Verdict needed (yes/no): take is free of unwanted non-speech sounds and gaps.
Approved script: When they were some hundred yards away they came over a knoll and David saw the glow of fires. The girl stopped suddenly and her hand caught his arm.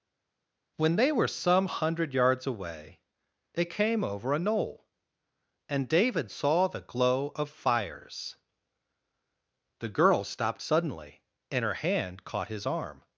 yes